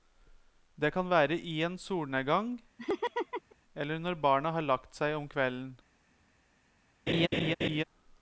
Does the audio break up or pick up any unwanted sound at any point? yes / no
yes